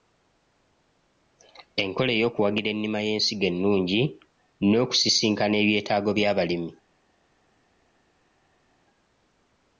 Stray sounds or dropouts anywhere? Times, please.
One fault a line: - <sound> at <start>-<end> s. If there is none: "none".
none